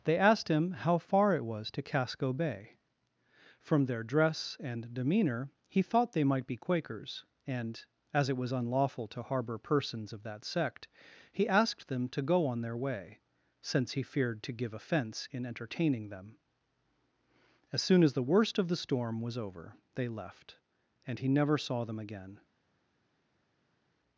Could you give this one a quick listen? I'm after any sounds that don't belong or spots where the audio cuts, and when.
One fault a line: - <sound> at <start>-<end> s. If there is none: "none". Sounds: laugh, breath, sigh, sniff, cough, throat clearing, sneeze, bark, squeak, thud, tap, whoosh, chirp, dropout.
none